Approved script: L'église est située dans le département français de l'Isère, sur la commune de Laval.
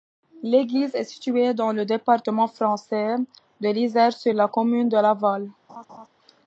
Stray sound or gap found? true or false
true